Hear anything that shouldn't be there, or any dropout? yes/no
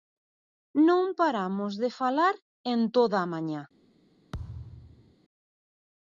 yes